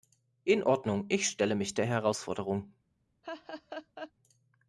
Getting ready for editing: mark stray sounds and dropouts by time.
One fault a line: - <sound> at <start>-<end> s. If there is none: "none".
- laugh at 3.2-4.1 s